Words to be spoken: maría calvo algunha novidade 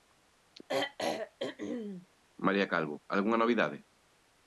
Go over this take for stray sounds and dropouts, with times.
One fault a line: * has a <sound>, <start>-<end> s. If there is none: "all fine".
* has a throat clearing, 0.7-2.1 s